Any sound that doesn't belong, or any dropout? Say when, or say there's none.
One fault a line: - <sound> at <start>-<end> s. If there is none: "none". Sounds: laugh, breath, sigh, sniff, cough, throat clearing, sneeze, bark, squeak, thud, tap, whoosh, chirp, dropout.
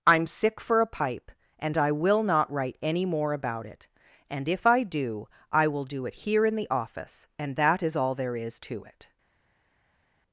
none